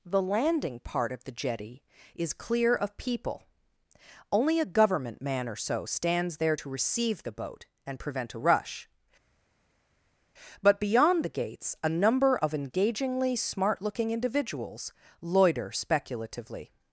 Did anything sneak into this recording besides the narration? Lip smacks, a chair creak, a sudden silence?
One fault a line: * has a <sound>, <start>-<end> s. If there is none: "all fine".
all fine